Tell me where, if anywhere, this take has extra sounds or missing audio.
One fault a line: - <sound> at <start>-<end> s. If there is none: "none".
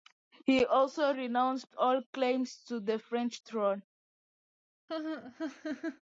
- laugh at 4.9-6.0 s